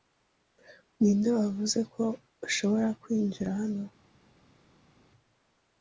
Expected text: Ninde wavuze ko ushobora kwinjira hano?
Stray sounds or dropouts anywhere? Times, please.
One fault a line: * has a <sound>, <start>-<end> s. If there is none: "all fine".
all fine